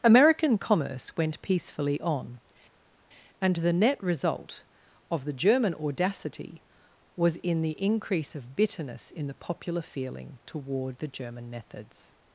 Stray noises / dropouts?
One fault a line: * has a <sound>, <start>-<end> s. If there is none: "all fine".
all fine